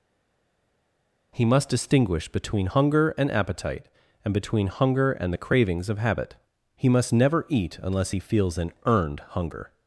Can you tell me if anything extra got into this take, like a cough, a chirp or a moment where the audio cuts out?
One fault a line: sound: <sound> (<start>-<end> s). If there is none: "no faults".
no faults